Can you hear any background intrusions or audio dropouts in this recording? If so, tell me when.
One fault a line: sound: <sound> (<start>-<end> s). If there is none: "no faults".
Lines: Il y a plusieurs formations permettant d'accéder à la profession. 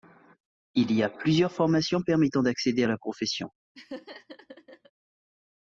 sound: laugh (3.7-4.9 s)